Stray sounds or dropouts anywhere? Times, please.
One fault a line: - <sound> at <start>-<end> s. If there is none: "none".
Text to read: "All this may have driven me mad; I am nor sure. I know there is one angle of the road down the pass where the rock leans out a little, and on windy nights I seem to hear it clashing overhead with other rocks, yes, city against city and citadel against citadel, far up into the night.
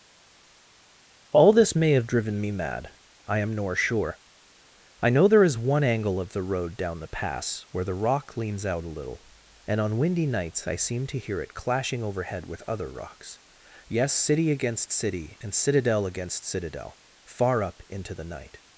none